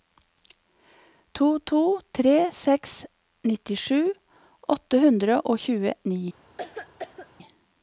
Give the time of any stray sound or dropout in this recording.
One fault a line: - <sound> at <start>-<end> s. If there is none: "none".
- cough at 6.6-7.3 s